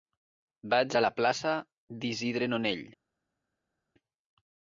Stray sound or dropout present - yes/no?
no